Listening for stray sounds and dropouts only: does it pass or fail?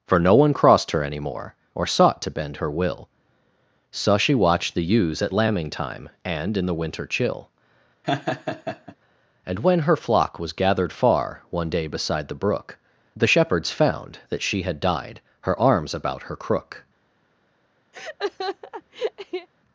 fail